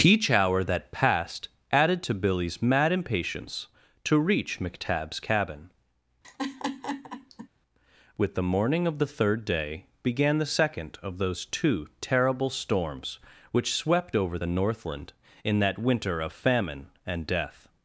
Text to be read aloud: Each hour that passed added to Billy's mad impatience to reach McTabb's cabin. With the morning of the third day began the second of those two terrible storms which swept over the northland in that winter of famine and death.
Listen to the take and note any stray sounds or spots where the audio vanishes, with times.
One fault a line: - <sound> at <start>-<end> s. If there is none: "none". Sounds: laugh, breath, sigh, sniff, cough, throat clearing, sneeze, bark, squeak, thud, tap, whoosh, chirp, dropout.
- laugh at 6.2-7.5 s